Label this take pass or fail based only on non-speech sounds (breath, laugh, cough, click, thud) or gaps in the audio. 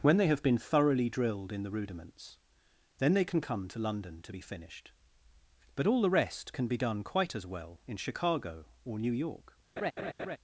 fail